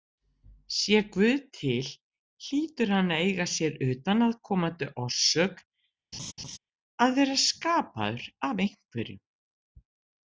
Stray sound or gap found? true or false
true